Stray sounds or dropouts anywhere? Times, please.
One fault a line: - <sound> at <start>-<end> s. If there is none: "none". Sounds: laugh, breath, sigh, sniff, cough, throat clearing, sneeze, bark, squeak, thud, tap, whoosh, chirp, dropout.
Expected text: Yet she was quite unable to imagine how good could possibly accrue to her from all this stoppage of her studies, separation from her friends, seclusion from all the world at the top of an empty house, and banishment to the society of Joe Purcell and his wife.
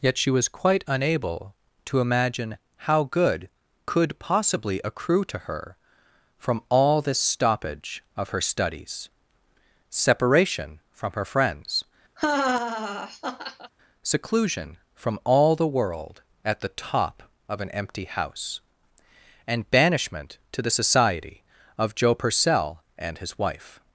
- laugh at 12.2-13.7 s